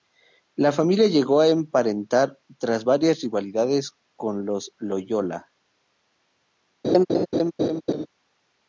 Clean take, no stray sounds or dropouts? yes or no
no